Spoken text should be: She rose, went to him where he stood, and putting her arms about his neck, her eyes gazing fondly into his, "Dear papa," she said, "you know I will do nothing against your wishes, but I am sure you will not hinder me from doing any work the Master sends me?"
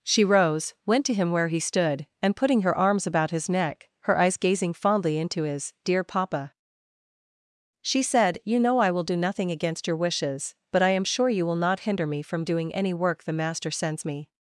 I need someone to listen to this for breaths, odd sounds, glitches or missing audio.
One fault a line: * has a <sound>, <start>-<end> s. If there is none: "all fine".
all fine